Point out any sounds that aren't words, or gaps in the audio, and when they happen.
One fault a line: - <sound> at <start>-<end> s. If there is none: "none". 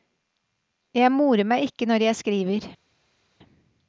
none